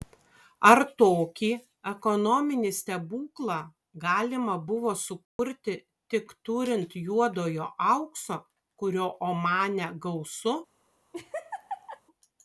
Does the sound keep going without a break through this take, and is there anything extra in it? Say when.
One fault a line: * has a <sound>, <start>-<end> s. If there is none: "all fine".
* has a dropout, 5.2-5.4 s
* has a laugh, 11.1-12.0 s